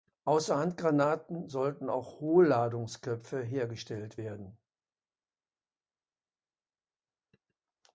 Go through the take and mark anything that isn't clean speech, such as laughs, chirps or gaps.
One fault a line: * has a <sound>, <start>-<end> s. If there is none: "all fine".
all fine